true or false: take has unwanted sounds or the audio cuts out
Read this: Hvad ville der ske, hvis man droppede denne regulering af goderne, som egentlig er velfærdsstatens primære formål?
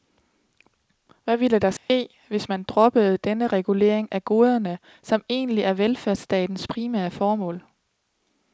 true